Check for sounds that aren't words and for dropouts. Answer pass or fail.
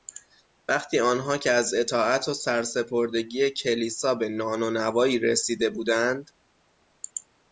pass